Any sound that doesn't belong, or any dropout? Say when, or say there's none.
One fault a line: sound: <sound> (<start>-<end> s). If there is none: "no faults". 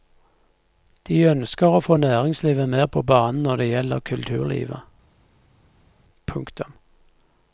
no faults